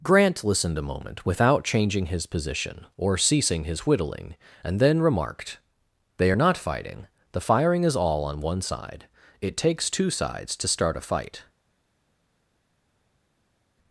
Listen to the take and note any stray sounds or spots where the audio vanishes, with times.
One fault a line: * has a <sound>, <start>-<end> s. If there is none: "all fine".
all fine